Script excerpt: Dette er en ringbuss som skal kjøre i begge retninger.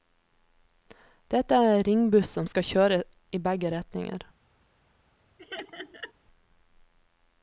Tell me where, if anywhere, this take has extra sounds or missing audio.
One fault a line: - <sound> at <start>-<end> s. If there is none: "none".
- laugh at 5.4-6.1 s